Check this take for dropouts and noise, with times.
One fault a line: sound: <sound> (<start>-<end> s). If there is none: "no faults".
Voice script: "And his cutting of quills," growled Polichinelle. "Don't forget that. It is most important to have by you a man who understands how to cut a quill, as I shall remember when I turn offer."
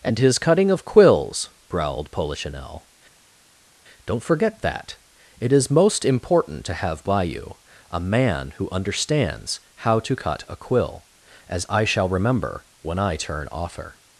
no faults